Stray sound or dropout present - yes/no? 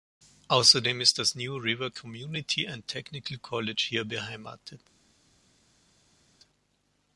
no